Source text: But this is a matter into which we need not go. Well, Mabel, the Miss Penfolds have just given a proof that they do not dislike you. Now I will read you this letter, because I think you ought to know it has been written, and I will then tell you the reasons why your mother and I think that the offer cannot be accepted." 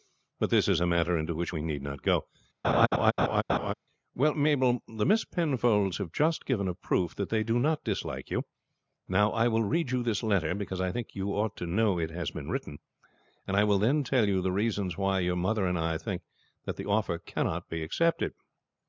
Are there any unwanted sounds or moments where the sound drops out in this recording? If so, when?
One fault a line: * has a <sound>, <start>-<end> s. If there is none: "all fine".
* has a laugh, 2.6-3.7 s